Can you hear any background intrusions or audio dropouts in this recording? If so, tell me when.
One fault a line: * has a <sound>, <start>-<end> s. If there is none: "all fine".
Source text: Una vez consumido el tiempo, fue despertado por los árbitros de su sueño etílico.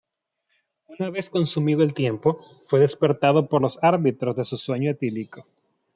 all fine